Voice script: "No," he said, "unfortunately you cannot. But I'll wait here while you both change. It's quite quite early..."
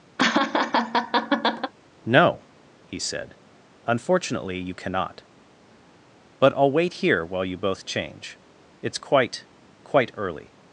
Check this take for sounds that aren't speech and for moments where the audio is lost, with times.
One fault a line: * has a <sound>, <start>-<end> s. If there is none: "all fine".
* has a laugh, 0.2-1.7 s